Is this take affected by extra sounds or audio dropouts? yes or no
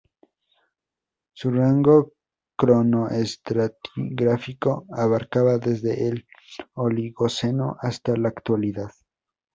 no